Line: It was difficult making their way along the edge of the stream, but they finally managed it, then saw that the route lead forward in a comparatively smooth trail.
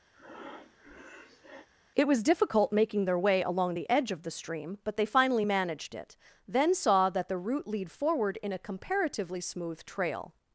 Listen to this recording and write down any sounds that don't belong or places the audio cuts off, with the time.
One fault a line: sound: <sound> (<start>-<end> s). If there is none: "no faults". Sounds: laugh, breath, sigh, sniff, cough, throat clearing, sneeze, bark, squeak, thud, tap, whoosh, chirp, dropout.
sound: breath (0.1-1.7 s)